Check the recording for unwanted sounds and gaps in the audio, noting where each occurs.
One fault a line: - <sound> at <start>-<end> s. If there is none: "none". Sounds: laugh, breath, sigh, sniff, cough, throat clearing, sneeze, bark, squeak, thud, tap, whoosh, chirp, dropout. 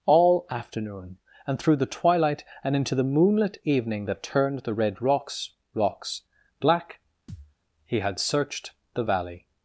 - thud at 7.3-7.5 s